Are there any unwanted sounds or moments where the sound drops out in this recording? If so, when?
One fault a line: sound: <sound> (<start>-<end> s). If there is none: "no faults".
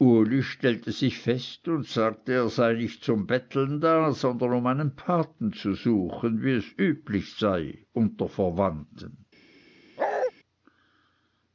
sound: bark (10.0-10.3 s)